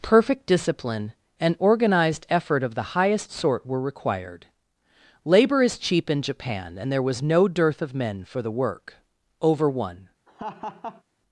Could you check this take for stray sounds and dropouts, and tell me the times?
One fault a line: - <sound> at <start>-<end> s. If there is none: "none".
- laugh at 10.3-11.0 s